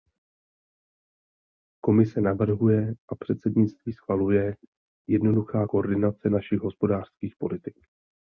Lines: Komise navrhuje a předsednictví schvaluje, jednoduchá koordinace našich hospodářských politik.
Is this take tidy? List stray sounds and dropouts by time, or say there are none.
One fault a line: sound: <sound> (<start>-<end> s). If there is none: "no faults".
no faults